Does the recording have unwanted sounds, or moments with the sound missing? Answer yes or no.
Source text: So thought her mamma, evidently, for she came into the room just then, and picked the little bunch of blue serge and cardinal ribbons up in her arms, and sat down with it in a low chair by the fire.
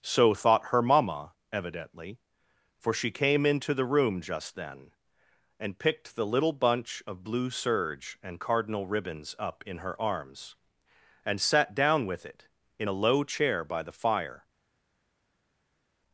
no